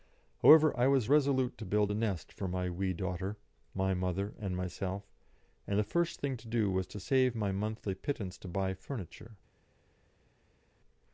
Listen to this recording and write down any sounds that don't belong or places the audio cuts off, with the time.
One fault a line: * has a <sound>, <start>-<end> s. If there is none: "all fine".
all fine